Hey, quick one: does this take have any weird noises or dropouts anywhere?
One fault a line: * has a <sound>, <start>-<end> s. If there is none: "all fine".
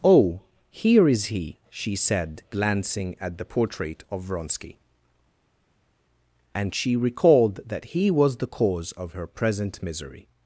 all fine